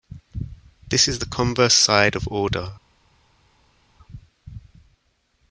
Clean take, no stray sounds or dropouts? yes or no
yes